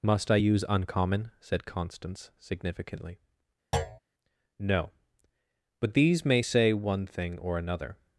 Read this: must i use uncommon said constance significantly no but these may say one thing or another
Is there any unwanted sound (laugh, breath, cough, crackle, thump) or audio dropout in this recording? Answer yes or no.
yes